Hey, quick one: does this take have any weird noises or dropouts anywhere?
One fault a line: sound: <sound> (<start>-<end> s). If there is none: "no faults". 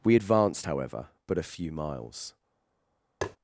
sound: tap (3.2-3.4 s)